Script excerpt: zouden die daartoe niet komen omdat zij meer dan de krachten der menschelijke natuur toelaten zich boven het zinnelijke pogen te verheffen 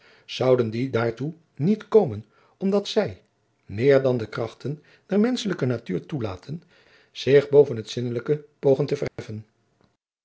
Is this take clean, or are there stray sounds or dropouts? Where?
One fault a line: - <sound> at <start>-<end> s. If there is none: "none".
- dropout at 9.1-9.2 s